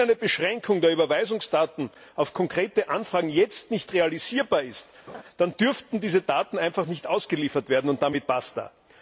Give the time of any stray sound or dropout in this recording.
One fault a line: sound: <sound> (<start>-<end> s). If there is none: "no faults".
sound: laugh (5.1-5.2 s)